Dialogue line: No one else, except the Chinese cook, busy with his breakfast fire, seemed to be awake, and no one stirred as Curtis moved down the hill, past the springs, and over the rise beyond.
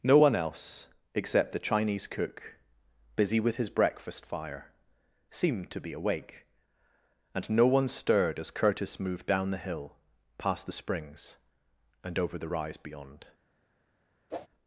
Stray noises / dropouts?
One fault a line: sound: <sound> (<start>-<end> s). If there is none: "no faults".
sound: whoosh (14.3-14.5 s)